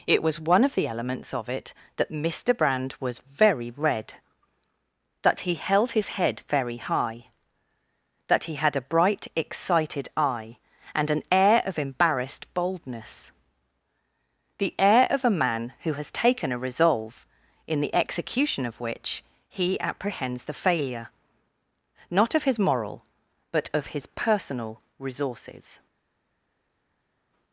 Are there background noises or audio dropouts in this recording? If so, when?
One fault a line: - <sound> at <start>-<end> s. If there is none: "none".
none